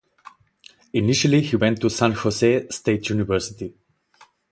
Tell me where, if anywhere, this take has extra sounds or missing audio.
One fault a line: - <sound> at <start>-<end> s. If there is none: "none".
none